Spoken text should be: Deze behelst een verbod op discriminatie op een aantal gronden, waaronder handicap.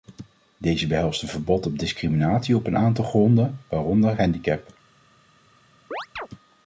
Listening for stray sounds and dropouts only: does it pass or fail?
fail